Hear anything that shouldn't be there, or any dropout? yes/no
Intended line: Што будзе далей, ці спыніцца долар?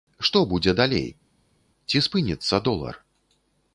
no